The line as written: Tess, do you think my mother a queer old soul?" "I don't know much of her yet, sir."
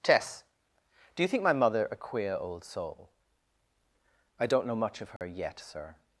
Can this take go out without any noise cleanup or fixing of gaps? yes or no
no